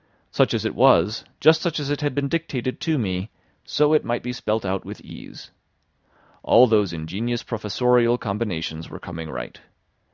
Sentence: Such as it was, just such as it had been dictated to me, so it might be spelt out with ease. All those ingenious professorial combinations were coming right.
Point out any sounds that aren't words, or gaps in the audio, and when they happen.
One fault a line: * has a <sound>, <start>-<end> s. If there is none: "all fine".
all fine